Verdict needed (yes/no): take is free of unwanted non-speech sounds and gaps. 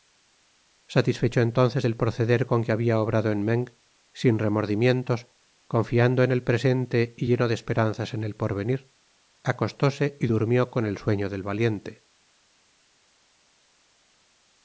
yes